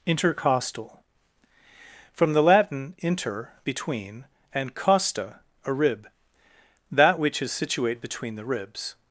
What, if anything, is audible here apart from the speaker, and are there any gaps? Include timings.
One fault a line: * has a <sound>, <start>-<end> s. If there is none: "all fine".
all fine